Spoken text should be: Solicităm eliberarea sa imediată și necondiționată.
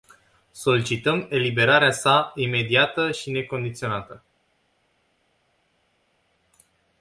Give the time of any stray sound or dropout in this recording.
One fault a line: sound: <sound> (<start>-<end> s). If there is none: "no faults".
no faults